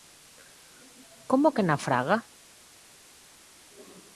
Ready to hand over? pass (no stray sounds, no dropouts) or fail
pass